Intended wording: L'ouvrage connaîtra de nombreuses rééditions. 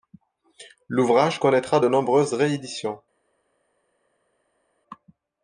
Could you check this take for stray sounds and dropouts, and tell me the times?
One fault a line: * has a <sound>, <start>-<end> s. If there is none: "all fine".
all fine